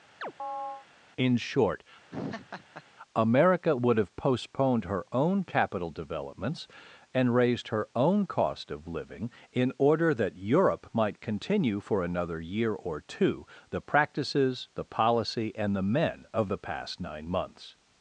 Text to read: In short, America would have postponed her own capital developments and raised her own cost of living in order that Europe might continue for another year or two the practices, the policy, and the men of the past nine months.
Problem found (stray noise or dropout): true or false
true